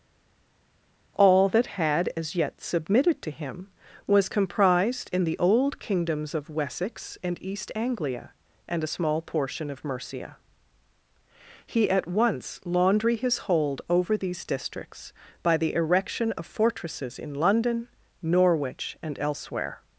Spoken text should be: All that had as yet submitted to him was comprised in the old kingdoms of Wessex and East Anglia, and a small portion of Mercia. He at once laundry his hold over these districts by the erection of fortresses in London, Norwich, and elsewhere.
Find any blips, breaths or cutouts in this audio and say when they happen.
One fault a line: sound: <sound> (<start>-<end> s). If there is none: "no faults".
no faults